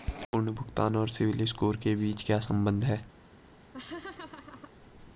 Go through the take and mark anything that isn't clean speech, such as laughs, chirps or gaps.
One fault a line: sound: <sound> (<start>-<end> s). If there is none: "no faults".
sound: laugh (3.7-4.7 s)